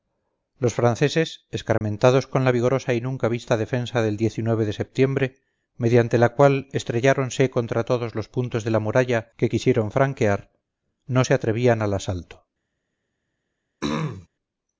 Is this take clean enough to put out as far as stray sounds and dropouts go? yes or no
no